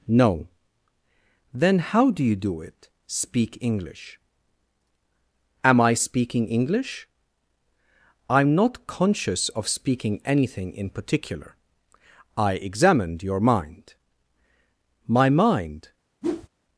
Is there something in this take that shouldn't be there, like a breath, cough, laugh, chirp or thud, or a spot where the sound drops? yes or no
yes